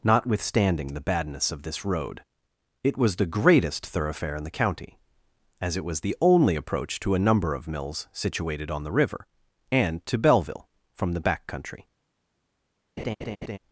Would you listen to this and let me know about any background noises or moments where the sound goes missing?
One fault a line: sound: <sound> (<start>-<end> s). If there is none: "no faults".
sound: laugh (13.0-13.6 s)